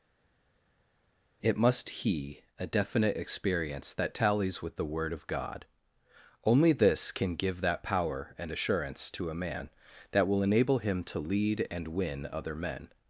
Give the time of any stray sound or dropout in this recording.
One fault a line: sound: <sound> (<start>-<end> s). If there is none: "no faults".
no faults